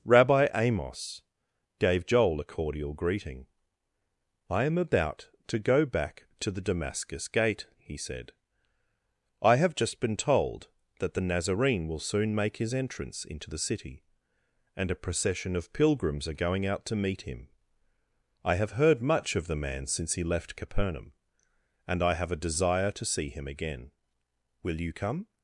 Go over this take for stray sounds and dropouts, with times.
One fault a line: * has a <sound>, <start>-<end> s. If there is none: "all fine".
all fine